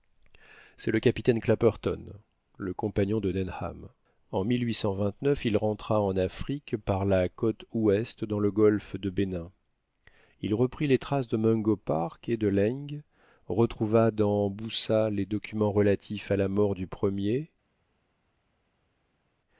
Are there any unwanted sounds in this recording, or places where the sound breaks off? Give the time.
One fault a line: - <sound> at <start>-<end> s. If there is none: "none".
none